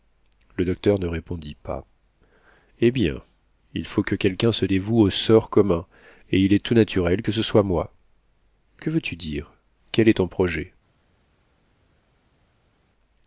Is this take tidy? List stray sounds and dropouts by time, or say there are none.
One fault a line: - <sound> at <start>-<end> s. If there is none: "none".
none